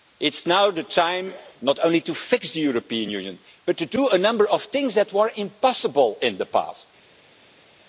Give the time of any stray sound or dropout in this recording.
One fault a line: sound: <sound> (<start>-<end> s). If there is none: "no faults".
no faults